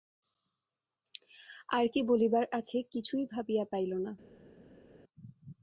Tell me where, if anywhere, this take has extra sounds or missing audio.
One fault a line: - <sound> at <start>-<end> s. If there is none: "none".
none